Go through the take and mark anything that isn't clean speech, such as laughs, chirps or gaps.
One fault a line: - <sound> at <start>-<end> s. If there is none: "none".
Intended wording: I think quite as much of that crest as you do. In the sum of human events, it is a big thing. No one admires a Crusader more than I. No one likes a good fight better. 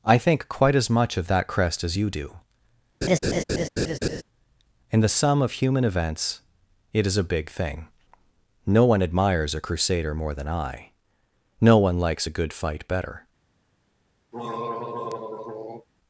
- laugh at 3.0-4.2 s
- throat clearing at 14.3-15.9 s